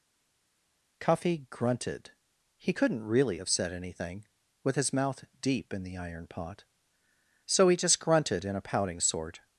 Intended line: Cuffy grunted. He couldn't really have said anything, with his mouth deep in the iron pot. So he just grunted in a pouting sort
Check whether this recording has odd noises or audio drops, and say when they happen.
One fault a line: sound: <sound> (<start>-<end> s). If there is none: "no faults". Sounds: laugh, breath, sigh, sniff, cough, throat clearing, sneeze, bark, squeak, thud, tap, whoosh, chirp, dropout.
no faults